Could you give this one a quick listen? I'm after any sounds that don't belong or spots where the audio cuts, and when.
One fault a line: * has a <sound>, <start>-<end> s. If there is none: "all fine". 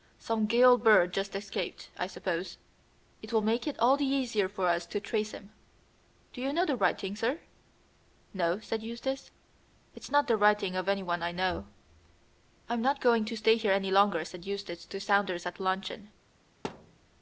* has a thud, 16.6-17.0 s